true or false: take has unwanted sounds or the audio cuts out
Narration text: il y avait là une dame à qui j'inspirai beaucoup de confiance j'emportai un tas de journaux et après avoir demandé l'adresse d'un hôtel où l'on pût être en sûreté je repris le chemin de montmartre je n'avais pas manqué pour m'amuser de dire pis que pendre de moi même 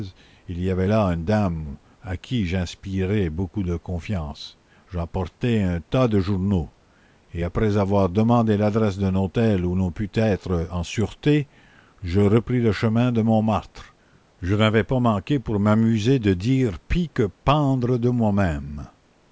false